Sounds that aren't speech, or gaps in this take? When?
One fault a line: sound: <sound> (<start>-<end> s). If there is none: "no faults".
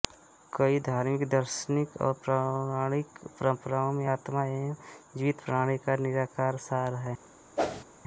sound: whoosh (7.6-7.8 s)